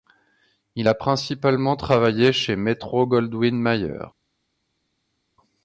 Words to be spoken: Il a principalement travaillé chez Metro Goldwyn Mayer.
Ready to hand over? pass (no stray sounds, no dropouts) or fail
pass